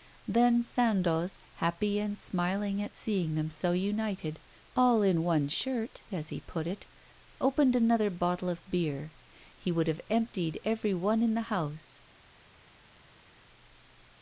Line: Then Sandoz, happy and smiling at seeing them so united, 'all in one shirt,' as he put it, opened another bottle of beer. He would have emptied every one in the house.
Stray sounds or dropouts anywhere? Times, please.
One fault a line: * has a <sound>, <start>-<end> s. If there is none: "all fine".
all fine